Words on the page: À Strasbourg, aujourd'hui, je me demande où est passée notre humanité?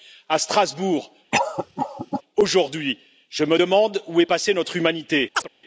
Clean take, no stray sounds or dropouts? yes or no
no